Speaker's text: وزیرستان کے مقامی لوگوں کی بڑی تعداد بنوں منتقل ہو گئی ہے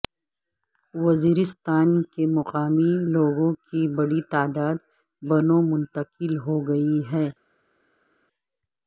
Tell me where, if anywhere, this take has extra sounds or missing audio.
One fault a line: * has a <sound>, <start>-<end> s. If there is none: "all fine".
all fine